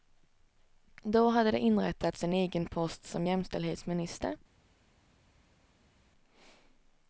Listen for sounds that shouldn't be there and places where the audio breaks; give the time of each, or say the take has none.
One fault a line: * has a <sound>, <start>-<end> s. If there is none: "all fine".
all fine